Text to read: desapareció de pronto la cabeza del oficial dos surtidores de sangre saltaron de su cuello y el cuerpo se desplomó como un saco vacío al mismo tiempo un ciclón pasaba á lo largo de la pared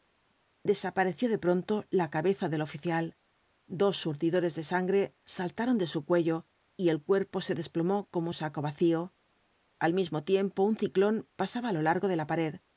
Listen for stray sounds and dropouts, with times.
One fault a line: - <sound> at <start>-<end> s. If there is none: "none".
none